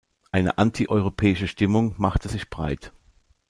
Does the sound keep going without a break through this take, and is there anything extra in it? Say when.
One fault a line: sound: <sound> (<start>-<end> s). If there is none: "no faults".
no faults